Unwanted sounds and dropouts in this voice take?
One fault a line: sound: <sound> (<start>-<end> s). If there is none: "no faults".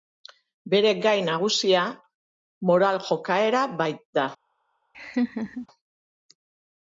sound: laugh (4.9-5.7 s)